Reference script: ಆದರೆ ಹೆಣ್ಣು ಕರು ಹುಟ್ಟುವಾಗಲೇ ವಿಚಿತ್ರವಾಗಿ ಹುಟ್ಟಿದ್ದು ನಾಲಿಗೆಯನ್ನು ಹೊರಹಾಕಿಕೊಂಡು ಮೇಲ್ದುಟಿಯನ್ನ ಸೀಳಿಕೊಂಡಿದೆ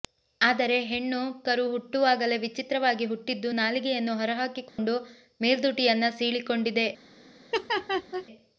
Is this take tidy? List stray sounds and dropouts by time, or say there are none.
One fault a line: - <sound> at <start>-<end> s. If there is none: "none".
- dropout at 4.7-4.8 s
- laugh at 7.5-8.3 s